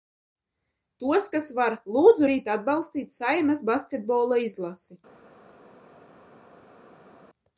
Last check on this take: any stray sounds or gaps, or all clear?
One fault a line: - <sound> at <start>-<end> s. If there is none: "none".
none